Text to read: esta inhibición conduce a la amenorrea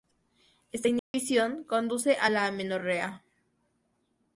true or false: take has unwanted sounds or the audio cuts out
true